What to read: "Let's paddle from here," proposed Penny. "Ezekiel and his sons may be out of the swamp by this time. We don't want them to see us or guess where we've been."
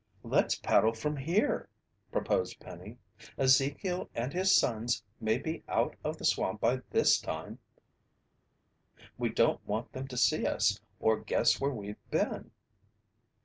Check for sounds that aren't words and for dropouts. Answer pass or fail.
pass